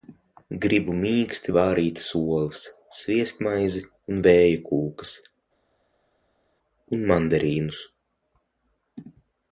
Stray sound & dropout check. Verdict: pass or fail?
pass